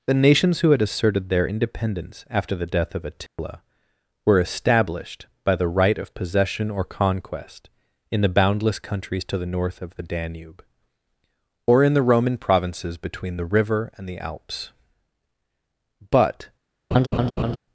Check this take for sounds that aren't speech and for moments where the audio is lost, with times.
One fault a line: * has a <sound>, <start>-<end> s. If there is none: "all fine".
* has a dropout, 3.3-3.4 s
* has a laugh, 16.9-17.6 s